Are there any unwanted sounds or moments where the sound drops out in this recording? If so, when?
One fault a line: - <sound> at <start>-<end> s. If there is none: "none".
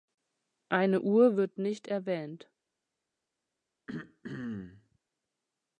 - throat clearing at 3.9-5.0 s